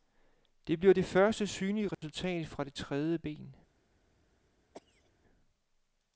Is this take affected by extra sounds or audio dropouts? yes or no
yes